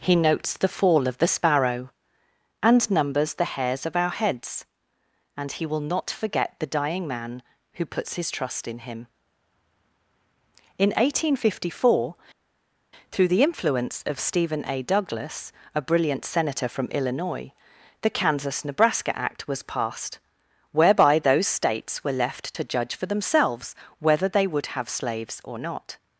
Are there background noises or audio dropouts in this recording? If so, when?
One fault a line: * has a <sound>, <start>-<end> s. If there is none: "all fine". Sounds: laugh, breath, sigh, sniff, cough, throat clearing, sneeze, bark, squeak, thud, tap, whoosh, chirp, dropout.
all fine